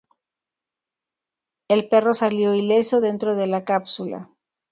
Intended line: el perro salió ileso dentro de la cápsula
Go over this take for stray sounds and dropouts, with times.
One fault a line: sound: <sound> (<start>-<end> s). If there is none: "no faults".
no faults